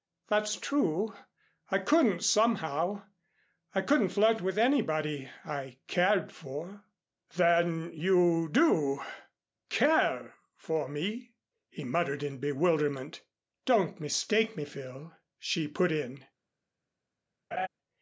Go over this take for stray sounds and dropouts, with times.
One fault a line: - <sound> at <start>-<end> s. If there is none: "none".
- laugh at 17.5-17.7 s